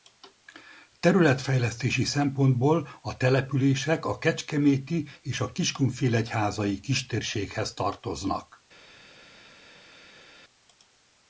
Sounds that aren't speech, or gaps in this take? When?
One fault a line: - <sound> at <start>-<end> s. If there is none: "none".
none